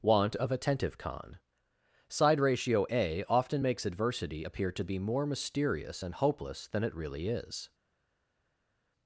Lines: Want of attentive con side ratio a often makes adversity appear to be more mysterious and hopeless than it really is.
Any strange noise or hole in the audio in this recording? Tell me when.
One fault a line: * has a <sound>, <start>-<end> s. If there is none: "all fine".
all fine